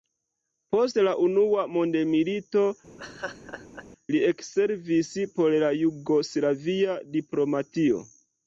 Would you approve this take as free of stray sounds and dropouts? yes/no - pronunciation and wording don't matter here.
no